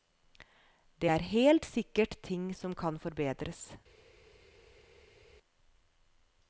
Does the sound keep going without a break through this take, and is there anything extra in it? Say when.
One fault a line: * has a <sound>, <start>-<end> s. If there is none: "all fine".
all fine